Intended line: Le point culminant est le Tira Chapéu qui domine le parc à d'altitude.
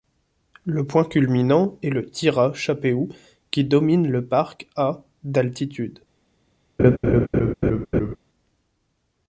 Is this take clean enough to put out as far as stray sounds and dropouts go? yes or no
no